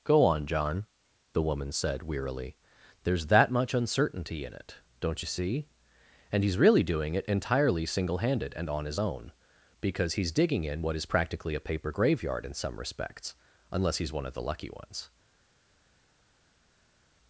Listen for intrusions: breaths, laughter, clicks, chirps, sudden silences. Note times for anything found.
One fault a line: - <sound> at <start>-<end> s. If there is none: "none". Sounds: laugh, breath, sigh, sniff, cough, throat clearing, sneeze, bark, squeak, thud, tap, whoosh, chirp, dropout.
none